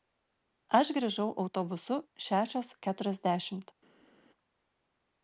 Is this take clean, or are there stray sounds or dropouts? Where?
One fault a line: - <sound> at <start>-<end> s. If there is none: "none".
none